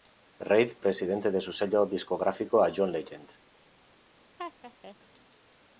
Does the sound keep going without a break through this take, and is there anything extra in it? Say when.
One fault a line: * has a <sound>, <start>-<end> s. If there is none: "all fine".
* has a laugh, 4.4-5.0 s